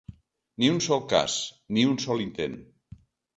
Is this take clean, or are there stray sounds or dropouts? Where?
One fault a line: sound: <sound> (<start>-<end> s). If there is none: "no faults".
no faults